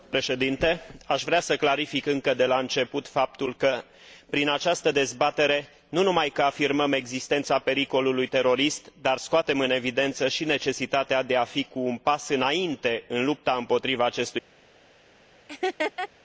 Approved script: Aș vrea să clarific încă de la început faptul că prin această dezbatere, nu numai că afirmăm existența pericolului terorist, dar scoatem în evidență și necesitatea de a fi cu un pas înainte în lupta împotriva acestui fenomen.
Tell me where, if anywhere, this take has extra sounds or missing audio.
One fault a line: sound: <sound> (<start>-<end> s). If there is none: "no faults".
sound: laugh (15.5-16.1 s)